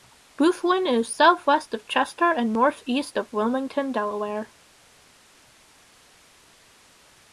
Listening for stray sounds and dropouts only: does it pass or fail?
pass